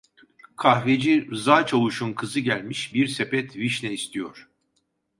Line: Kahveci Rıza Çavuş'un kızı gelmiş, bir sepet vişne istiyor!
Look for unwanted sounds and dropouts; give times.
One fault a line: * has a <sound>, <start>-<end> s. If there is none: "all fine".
all fine